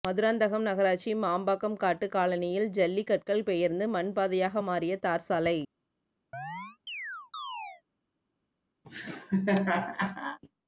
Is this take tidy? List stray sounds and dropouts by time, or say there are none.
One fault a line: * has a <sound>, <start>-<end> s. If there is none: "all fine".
* has a chirp, 6.3-7.8 s
* has a laugh, 8.8-10.4 s